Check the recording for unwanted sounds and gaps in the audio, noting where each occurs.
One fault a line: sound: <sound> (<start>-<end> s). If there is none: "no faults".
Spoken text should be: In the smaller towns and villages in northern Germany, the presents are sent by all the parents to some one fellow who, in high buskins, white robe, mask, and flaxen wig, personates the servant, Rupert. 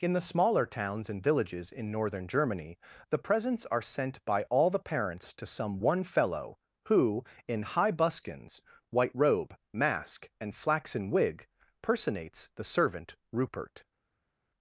no faults